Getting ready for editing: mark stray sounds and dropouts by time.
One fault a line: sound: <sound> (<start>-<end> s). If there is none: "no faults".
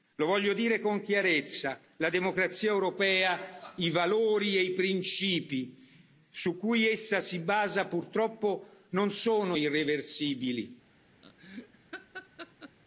sound: laugh (11.2-12.8 s)